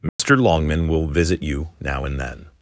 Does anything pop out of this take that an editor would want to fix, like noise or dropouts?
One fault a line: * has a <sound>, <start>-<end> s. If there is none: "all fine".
* has a dropout, 0.1-0.2 s